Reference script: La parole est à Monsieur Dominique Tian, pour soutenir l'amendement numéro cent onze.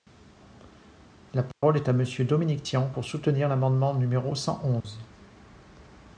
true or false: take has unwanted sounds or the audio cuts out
true